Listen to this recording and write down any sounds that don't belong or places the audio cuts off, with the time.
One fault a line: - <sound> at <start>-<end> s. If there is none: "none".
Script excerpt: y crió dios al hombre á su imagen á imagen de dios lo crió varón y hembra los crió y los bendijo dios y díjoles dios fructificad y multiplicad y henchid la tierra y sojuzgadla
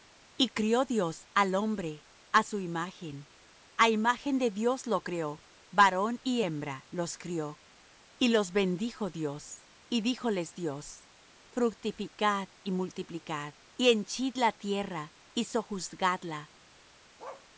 - bark at 17.2-17.5 s